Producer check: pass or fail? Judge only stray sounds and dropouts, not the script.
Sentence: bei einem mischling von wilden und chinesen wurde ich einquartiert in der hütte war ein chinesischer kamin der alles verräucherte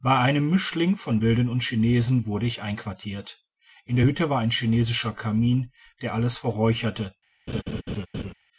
fail